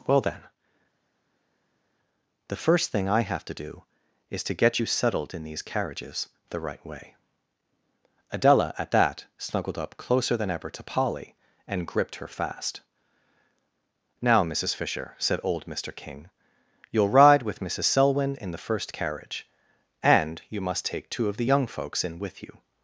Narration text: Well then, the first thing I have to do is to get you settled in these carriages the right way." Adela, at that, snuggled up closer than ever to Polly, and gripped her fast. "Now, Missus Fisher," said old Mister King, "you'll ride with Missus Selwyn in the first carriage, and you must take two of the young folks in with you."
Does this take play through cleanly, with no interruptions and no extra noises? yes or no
yes